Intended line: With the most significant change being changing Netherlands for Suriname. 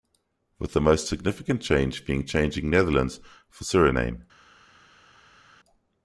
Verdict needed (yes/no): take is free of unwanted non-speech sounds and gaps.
yes